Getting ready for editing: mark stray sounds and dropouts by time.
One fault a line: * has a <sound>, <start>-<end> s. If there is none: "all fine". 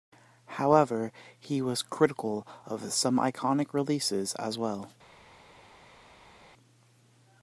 all fine